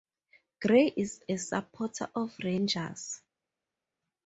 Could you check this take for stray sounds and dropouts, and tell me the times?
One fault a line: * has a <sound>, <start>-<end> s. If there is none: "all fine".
all fine